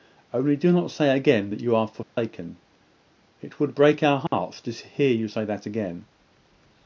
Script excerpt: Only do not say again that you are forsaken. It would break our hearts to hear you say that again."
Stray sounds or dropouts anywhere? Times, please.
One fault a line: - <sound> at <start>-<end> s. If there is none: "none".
- dropout at 2.0-2.2 s
- dropout at 4.3-4.3 s